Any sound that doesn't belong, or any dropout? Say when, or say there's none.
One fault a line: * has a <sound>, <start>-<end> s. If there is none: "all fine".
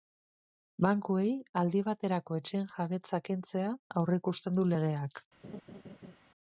* has a laugh, 5.4-6.2 s